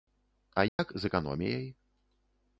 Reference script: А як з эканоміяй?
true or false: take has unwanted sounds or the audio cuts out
true